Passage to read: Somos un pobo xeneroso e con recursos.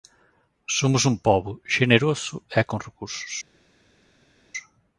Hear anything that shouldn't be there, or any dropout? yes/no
no